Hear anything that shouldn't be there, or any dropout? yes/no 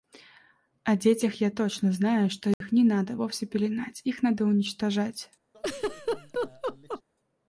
yes